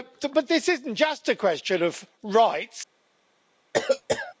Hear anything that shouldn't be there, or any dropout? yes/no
yes